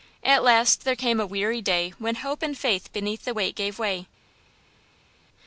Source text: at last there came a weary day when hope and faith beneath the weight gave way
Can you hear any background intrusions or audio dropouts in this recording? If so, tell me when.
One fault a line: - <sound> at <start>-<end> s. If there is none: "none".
none